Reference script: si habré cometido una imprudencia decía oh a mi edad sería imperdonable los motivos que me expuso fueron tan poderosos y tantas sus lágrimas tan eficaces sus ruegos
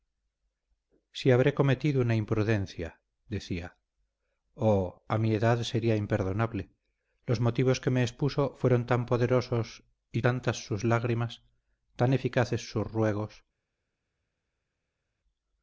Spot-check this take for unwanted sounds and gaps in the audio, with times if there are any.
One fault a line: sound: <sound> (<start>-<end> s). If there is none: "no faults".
no faults